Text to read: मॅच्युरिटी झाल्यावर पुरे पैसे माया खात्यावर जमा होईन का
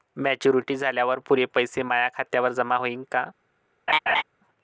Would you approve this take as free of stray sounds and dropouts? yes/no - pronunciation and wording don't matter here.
no